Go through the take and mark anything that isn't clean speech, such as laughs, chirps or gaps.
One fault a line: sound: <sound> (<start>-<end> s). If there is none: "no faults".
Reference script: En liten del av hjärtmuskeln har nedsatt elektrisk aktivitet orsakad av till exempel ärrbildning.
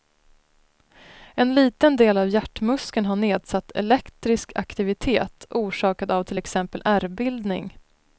no faults